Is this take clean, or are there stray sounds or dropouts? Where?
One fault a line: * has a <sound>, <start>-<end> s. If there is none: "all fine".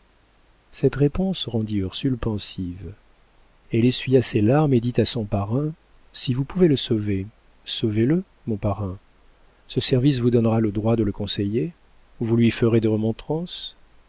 all fine